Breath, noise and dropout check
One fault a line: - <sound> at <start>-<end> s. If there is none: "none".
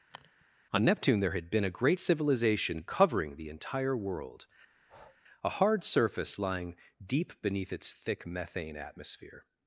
- sniff at 0.1-0.4 s
- breath at 4.7-5.2 s